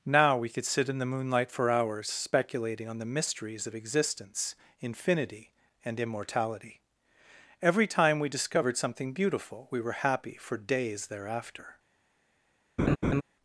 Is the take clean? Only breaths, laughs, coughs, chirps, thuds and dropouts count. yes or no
no